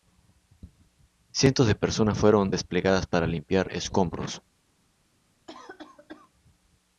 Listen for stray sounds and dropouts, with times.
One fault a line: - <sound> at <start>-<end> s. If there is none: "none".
- cough at 5.5-6.3 s